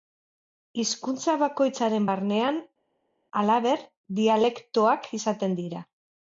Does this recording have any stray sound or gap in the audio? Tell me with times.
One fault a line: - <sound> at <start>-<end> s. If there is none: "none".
none